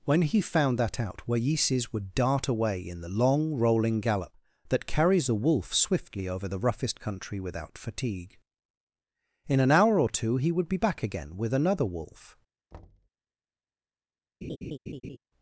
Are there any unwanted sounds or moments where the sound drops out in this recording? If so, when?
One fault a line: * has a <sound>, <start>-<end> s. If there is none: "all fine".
* has a thud, 12.7-13.1 s
* has a laugh, 14.4-15.2 s